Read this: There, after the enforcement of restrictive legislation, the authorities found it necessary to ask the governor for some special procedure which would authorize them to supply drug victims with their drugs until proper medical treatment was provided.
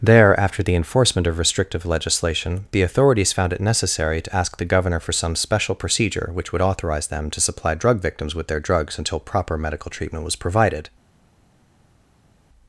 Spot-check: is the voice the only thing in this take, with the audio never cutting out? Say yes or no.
yes